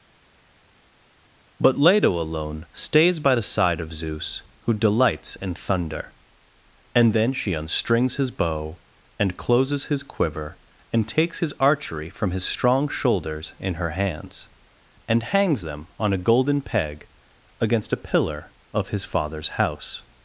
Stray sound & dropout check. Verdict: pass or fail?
pass